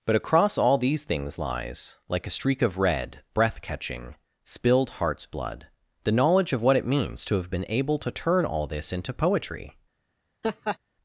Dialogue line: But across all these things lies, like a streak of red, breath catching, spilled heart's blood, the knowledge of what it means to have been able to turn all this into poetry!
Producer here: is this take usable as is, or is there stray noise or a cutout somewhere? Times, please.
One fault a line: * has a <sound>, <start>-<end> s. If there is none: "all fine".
* has a laugh, 10.4-10.8 s